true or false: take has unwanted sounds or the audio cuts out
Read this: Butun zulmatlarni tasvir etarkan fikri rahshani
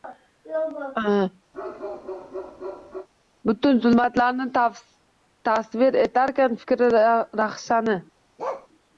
true